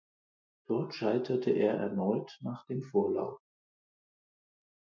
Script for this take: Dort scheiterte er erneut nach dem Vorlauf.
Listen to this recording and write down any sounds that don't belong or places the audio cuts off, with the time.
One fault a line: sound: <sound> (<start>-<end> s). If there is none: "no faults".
no faults